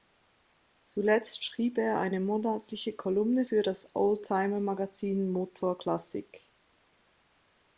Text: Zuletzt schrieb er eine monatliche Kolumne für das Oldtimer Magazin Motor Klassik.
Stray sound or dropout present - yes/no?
no